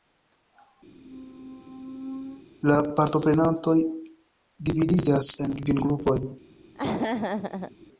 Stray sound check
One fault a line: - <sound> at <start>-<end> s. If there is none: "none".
- squeak at 0.9-2.4 s
- laugh at 6.7-7.7 s